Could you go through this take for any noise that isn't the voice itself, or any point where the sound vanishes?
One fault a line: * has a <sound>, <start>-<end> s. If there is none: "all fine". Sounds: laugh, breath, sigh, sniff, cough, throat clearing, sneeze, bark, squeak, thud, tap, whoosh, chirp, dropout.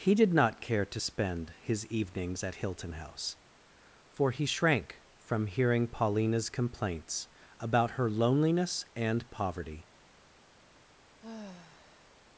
* has a sigh, 11.2-12.2 s